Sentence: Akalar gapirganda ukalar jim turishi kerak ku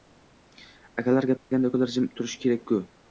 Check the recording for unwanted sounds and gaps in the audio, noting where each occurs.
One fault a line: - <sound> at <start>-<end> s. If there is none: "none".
- dropout at 1.4-1.5 s